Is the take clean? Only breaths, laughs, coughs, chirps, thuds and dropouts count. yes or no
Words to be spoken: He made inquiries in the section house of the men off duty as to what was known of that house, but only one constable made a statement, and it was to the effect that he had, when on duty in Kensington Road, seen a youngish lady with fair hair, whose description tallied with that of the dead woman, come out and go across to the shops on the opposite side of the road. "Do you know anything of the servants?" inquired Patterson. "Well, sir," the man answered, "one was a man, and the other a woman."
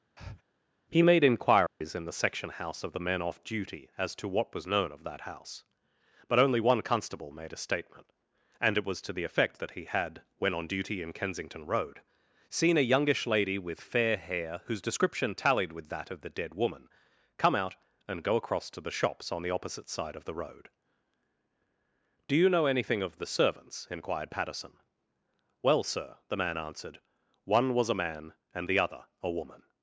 no